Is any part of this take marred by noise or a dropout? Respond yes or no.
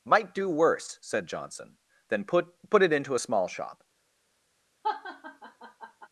yes